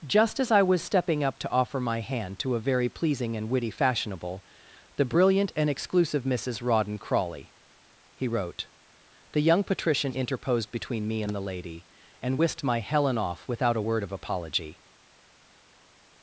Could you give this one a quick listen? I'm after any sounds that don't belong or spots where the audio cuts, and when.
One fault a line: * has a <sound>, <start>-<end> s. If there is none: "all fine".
all fine